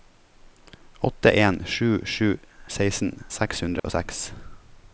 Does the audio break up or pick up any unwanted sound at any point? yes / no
yes